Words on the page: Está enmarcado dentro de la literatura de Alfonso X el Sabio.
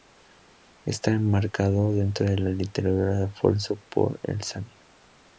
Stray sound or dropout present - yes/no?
no